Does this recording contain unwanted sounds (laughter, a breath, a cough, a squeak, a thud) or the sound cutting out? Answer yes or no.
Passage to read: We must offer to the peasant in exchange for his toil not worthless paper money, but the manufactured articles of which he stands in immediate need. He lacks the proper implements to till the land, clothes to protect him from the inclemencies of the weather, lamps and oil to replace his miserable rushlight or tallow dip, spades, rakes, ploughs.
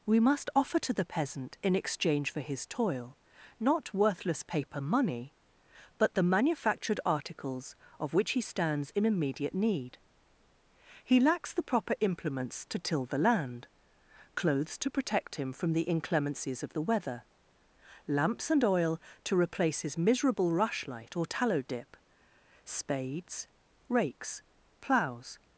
no